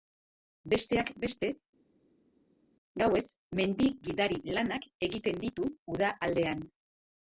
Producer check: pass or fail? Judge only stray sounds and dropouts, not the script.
pass